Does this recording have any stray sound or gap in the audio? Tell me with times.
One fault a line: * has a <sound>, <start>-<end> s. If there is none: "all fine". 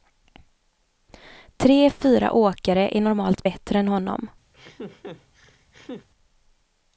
* has a laugh, 4.5-6.1 s